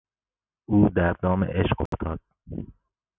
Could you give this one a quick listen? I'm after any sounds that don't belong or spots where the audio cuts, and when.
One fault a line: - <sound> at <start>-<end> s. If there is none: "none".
- dropout at 1.9-1.9 s